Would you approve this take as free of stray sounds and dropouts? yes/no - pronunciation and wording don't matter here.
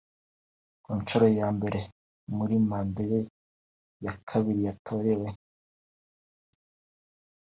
yes